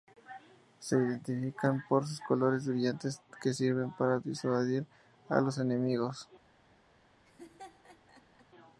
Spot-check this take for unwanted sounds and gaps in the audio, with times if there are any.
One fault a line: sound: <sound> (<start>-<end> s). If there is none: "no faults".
sound: laugh (7.2-8.5 s)